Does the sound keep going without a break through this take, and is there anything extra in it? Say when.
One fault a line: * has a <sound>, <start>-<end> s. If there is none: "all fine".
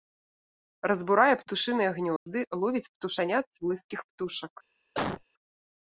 * has a dropout, 2.2-2.3 s
* has a cough, 4.9-5.2 s